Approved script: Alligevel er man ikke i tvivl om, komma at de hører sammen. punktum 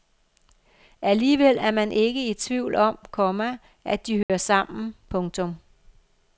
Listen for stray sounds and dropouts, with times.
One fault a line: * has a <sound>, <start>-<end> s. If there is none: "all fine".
* has a dropout, 4.2-4.3 s